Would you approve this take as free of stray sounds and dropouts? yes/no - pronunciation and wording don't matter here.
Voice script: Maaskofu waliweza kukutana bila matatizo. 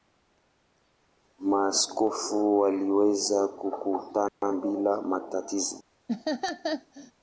no